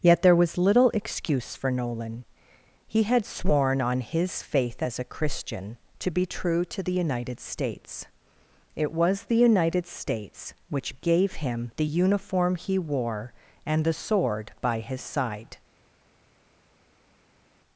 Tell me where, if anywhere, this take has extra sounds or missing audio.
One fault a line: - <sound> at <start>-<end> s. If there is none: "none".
none